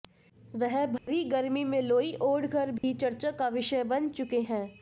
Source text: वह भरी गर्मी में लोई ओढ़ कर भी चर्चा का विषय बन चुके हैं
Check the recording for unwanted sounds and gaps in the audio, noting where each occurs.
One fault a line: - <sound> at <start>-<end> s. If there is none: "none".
- dropout at 1.0-1.1 s
- dropout at 2.8-2.8 s